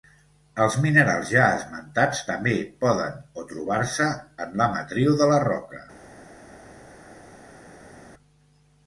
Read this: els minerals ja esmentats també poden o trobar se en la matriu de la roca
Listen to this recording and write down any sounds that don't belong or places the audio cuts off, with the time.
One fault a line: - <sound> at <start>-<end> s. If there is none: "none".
none